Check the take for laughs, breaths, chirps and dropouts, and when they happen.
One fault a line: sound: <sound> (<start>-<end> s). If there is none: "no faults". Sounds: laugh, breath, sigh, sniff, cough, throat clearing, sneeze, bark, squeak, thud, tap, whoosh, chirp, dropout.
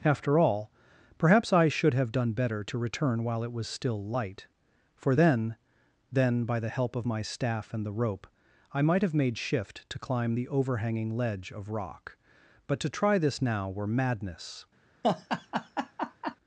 sound: laugh (15.0-16.4 s)